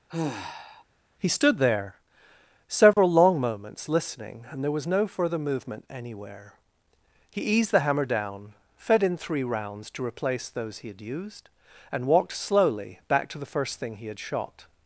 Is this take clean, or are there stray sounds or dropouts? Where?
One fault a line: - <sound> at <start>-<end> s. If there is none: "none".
- sigh at 0.1-0.8 s
- dropout at 2.9-3.0 s